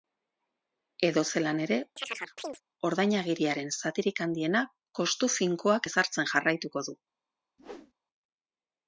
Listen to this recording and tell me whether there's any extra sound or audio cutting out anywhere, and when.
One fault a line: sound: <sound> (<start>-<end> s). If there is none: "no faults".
sound: chirp (2.0-2.6 s)
sound: whoosh (7.6-7.9 s)